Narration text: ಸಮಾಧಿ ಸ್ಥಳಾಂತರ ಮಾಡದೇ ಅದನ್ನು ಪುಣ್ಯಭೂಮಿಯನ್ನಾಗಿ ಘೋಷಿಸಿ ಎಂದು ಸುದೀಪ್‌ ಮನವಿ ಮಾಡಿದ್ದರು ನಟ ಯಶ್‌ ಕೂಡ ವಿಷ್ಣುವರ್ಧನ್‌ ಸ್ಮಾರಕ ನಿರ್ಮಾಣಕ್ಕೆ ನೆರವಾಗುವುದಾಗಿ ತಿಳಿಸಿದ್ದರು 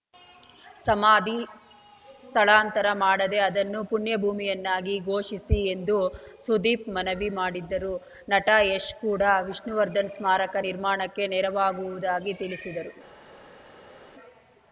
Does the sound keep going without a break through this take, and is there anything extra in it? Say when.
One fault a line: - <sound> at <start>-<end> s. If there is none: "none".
none